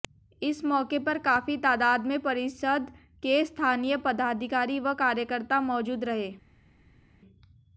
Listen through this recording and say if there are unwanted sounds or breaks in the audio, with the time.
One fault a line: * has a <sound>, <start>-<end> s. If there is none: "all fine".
all fine